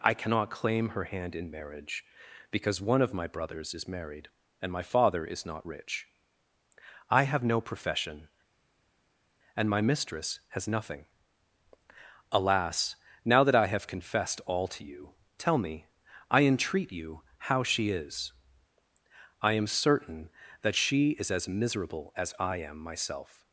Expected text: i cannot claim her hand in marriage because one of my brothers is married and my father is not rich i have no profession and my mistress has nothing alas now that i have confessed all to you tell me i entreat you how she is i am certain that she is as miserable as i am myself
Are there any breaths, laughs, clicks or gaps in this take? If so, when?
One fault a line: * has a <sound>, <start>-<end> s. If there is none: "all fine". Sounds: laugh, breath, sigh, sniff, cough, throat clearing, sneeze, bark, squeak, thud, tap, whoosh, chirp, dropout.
all fine